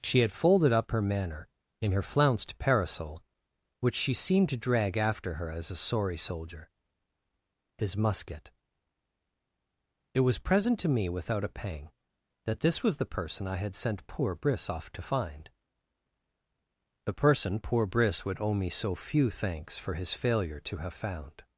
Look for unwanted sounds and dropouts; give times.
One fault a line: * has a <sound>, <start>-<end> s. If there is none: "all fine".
all fine